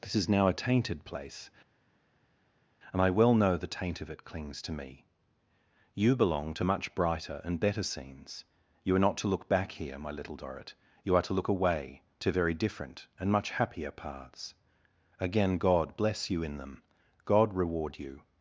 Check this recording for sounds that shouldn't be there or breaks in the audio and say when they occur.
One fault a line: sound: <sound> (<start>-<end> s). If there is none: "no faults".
no faults